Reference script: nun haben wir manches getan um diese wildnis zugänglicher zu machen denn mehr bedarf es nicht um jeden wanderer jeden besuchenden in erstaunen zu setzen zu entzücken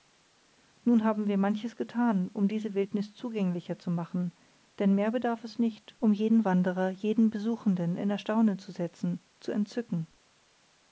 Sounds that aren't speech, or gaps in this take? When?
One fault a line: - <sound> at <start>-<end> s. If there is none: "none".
none